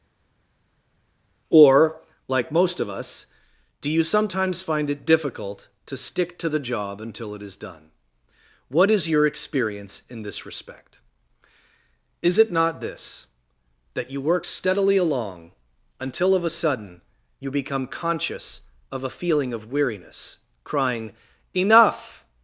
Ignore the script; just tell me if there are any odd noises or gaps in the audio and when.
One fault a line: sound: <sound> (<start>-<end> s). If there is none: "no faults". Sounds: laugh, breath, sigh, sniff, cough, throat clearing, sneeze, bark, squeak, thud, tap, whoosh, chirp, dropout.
no faults